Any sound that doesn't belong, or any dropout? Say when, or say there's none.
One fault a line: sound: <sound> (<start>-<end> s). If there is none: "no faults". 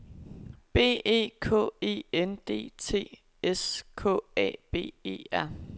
no faults